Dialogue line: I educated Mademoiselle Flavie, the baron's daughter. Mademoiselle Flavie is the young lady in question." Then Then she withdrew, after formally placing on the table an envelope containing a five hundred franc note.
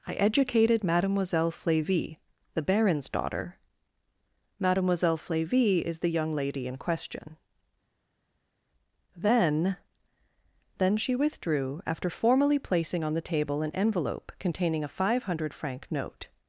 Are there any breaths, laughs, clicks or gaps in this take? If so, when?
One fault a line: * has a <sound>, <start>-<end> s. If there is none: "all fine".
all fine